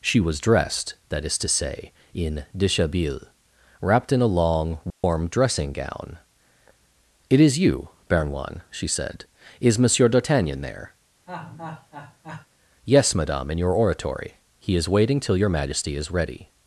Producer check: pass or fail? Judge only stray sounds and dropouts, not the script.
fail